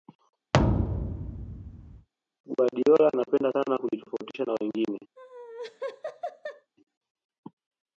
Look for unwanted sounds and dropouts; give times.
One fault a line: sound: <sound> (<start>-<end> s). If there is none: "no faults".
sound: thud (0.5-2.1 s)
sound: laugh (5.2-6.7 s)